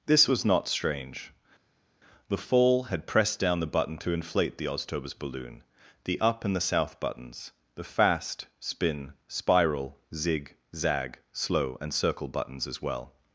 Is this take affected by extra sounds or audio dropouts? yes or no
no